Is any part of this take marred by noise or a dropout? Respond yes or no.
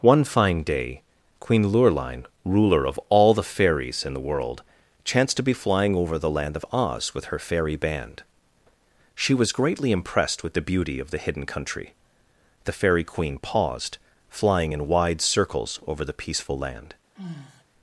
yes